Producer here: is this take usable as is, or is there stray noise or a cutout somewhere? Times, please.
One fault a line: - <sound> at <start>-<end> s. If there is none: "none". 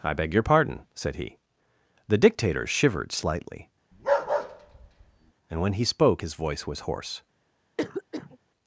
- bark at 3.9-5.3 s
- cough at 7.8-8.4 s